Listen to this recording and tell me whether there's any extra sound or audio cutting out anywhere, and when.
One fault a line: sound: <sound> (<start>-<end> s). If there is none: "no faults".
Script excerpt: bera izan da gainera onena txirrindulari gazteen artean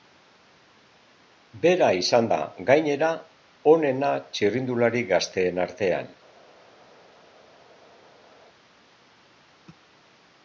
no faults